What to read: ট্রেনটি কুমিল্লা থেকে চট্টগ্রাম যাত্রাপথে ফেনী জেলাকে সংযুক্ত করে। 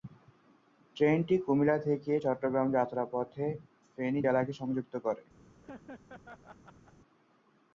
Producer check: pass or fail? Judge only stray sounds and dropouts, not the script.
fail